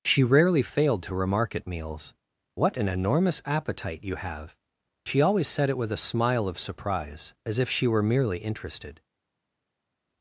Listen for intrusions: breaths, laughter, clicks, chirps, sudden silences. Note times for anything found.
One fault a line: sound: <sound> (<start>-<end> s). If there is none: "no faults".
no faults